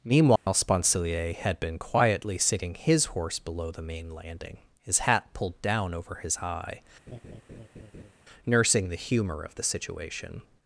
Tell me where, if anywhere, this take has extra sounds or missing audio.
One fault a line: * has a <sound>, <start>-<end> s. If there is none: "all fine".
* has a dropout, 0.4-0.5 s
* has a laugh, 7.1-8.1 s